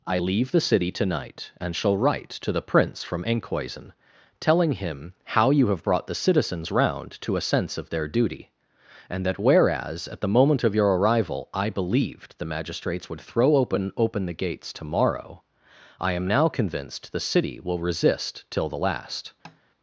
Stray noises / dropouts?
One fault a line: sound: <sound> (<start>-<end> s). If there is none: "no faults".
sound: tap (19.4-19.6 s)